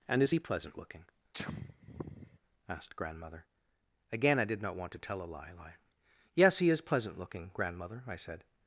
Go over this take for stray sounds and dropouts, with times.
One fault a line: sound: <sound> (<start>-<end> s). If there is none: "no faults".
sound: sneeze (1.3-2.4 s)